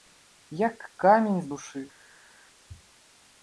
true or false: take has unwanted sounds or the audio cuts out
false